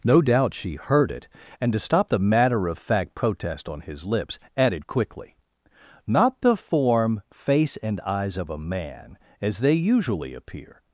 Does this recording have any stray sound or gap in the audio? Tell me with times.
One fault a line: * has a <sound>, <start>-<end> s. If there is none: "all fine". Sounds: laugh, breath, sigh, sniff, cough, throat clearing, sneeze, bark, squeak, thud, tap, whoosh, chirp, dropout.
all fine